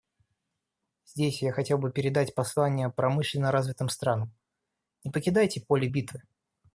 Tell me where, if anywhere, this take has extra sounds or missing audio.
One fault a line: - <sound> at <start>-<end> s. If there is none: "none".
none